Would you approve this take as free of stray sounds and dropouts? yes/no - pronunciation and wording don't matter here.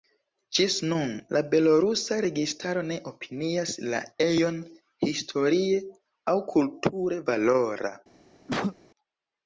no